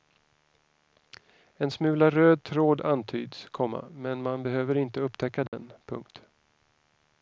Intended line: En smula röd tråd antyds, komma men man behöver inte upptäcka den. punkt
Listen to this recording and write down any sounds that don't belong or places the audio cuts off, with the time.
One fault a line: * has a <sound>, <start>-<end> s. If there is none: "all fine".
* has a dropout, 5.5-5.5 s